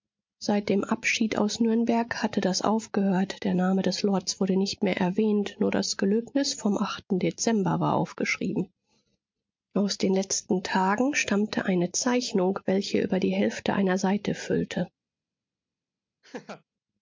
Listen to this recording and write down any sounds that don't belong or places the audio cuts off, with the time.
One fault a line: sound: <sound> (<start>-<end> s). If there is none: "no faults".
sound: laugh (16.2-16.6 s)